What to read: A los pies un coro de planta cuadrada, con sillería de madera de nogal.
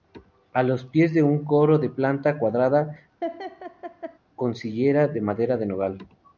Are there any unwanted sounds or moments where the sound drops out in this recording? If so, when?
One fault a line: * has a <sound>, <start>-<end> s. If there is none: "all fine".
* has a laugh, 3.2-4.2 s